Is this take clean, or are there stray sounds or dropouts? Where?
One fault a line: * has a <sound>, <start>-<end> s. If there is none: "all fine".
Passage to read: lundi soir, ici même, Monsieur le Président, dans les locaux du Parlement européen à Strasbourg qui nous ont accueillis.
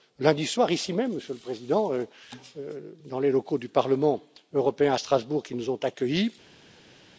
all fine